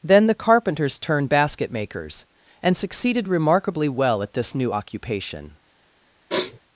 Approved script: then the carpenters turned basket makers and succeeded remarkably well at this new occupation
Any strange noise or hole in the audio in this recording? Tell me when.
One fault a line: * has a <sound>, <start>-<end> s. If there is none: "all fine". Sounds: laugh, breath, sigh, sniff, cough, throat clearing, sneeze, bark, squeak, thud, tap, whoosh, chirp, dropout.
* has a sniff, 6.3-6.6 s